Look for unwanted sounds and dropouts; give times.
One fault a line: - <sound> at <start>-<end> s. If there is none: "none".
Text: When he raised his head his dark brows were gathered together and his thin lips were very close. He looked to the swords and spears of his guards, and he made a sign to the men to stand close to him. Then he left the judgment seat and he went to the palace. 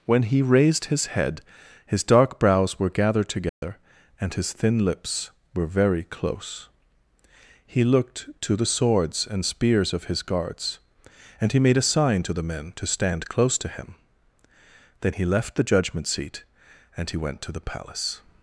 - dropout at 3.5-3.6 s